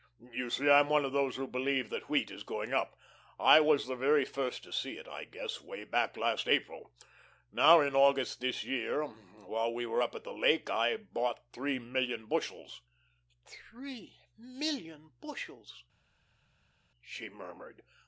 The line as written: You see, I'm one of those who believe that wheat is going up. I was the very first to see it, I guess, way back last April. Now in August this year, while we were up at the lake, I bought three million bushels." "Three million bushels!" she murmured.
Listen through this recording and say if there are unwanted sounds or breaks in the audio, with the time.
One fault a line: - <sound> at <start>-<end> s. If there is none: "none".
none